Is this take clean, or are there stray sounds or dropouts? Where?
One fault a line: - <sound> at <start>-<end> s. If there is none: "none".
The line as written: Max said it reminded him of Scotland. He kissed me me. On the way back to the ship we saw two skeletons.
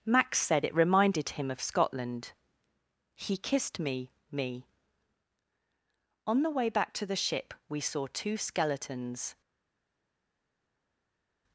none